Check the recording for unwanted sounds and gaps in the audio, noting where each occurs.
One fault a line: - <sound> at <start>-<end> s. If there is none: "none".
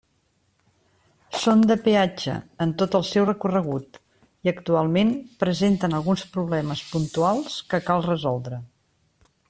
none